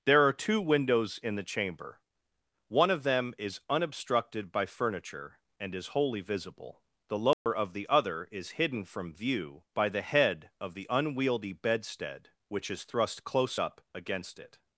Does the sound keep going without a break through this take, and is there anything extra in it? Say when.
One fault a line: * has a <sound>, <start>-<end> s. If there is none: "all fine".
* has a dropout, 7.3-7.5 s